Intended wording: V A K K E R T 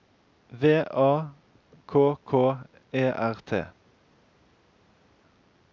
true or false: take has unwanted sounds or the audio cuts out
false